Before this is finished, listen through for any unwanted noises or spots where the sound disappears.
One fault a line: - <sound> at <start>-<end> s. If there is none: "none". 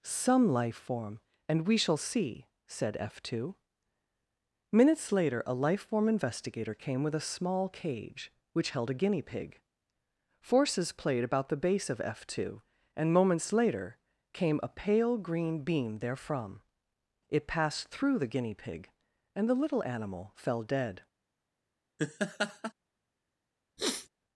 - laugh at 22.0-22.7 s
- sniff at 23.8-24.1 s